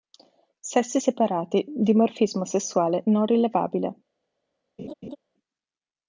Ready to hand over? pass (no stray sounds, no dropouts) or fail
fail